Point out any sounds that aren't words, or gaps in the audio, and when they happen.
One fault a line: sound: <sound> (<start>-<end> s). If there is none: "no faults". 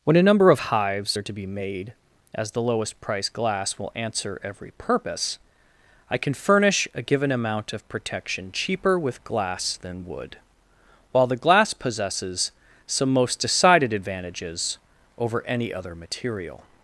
no faults